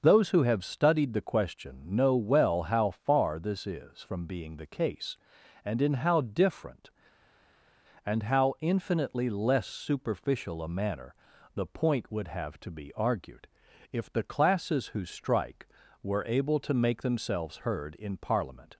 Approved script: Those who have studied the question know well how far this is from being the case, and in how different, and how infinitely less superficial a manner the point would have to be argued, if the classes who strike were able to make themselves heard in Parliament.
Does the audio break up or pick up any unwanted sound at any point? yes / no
no